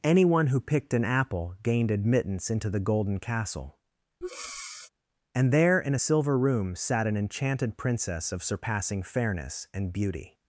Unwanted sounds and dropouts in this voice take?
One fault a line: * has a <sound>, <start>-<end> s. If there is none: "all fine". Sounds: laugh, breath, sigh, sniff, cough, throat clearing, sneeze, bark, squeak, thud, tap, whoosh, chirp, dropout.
* has a breath, 4.2-4.9 s